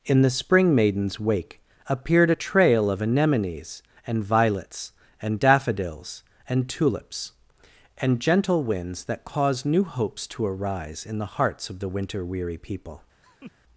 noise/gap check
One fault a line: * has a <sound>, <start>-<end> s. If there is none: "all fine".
* has a laugh, 13.2-13.5 s